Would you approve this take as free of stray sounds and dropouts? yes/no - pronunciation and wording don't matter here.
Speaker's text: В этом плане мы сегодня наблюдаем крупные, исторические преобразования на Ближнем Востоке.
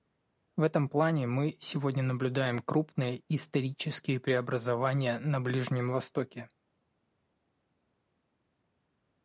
yes